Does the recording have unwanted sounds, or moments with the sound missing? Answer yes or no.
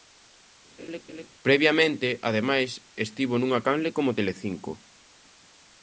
yes